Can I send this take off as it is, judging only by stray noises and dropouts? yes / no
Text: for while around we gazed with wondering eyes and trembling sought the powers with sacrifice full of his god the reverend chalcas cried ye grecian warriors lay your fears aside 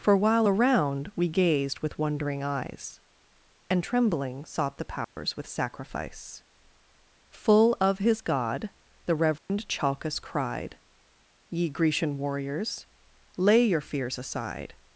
no